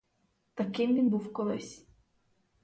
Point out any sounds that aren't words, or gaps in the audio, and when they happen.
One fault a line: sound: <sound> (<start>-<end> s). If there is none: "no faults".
no faults